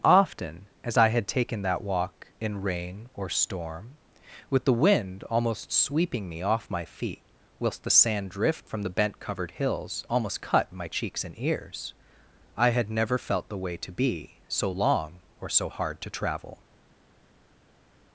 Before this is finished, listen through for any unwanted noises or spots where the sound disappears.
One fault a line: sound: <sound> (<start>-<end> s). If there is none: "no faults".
no faults